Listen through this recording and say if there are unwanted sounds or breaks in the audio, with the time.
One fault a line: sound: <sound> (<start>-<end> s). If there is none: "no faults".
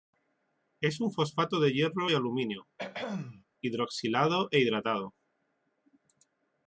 sound: throat clearing (2.8-3.4 s)